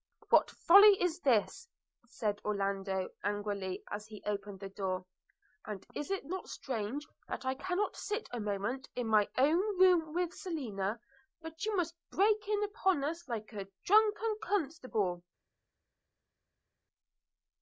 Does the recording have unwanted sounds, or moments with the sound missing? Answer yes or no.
no